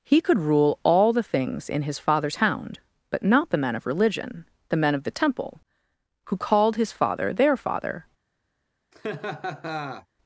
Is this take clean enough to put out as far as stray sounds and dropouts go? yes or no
no